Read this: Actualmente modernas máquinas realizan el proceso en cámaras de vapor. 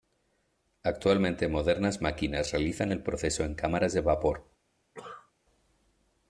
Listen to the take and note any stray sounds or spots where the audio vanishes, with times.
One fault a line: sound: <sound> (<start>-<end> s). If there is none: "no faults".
sound: cough (4.9-5.3 s)